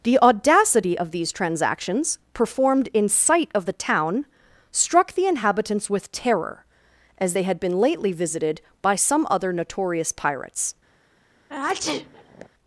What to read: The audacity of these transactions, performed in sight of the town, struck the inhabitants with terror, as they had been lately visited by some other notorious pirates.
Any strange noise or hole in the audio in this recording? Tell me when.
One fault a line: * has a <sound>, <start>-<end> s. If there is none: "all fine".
* has a sneeze, 11.5-12.5 s